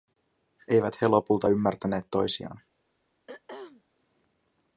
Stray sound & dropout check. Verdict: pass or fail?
fail